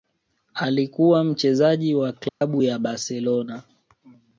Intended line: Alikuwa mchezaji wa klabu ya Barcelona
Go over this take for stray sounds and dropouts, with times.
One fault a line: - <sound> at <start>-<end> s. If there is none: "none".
- dropout at 2.3-2.4 s